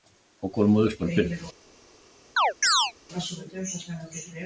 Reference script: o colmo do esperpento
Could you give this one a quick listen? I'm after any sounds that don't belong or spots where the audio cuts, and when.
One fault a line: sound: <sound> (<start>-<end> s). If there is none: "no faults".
sound: chirp (2.4-2.9 s)